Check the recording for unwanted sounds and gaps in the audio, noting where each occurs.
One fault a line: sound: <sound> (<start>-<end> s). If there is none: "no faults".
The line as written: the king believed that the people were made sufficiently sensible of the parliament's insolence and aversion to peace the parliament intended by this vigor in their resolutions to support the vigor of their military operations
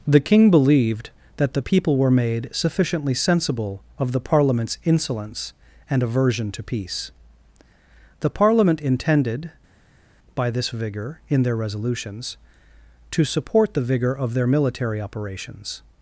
no faults